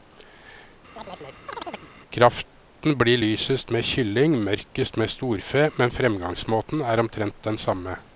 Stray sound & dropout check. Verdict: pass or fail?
fail